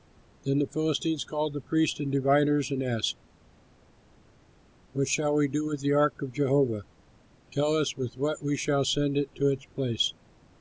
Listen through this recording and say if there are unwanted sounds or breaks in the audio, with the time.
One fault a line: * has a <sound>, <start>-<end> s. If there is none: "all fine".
all fine